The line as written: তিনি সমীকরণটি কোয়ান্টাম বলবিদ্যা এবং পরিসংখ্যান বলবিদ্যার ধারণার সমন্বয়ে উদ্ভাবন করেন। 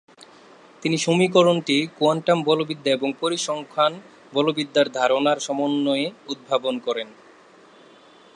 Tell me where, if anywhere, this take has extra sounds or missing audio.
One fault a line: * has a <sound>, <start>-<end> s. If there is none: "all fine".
all fine